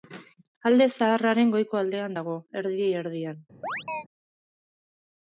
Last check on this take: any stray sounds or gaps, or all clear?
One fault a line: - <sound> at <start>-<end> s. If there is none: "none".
- chirp at 3.6-4.0 s